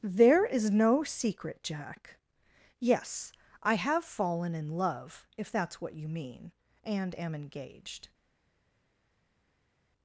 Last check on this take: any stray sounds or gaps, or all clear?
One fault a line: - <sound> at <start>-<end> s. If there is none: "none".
none